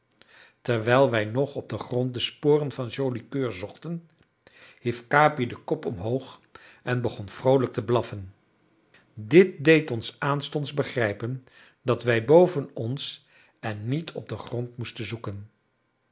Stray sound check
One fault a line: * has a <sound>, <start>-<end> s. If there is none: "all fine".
all fine